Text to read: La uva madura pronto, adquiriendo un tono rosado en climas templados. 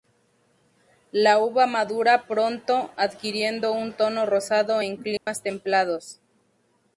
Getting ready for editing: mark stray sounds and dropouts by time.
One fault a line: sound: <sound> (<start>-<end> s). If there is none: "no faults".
sound: dropout (5.2-5.3 s)